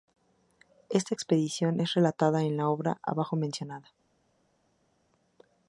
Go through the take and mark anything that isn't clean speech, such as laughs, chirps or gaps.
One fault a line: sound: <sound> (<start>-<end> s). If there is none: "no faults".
no faults